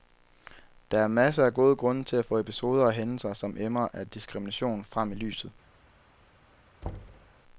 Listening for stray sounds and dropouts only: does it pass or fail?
fail